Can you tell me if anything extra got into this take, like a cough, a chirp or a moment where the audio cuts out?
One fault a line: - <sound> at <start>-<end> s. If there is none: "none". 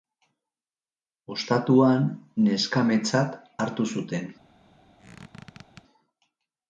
- squeak at 5.0-5.8 s